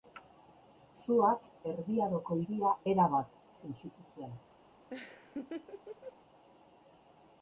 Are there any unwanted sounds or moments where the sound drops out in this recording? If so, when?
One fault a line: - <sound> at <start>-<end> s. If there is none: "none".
- laugh at 4.9-6.2 s